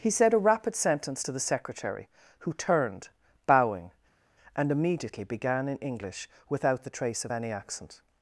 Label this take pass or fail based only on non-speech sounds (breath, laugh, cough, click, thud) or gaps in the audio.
pass